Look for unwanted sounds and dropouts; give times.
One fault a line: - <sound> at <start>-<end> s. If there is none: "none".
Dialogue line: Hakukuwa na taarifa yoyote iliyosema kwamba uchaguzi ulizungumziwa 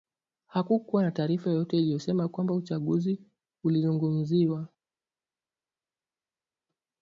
none